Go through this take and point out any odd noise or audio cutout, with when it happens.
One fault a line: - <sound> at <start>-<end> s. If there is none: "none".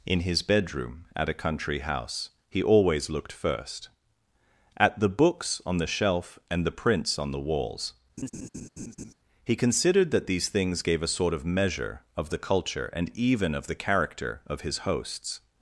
- laugh at 8.2-9.1 s